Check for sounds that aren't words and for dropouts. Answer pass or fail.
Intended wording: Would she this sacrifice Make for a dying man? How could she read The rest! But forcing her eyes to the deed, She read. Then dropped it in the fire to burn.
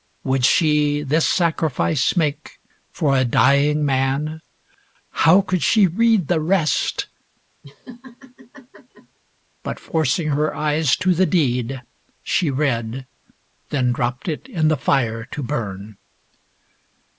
fail